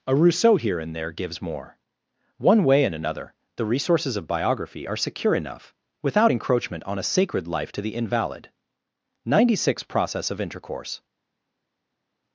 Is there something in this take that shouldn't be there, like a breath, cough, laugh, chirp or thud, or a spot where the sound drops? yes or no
no